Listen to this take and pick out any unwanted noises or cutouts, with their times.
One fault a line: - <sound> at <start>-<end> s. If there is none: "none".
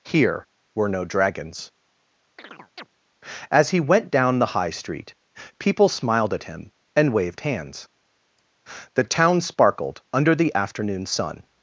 - chirp at 2.4-2.9 s